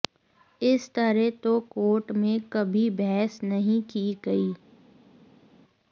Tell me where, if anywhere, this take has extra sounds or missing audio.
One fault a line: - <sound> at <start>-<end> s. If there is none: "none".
none